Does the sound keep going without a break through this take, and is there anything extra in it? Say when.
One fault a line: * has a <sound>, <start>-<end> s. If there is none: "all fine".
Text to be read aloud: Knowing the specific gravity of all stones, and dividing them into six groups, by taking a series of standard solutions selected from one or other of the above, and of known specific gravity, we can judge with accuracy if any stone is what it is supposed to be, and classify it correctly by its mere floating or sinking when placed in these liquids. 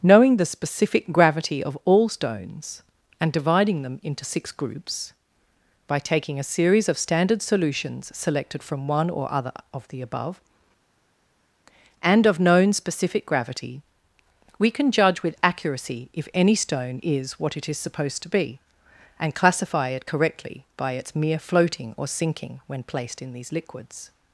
all fine